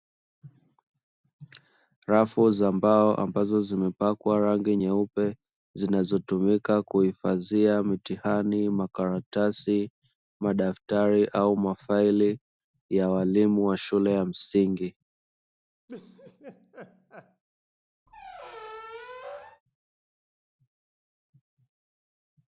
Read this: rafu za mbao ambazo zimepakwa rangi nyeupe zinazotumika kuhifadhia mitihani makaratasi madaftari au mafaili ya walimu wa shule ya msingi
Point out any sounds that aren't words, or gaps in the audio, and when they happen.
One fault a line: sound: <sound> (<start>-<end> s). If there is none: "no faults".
sound: laugh (15.9-17.4 s)
sound: squeak (18.1-19.6 s)